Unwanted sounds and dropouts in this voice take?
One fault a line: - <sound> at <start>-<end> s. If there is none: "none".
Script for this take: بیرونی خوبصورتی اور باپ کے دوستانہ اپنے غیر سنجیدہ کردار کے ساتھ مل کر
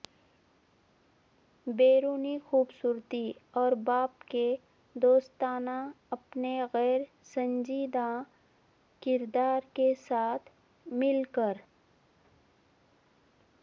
none